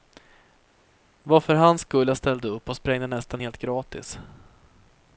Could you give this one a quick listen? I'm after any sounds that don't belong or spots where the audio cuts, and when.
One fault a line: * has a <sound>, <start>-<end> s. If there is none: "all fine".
all fine